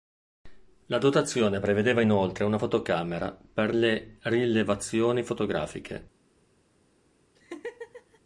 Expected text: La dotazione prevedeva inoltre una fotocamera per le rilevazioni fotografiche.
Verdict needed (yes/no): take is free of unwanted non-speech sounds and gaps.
no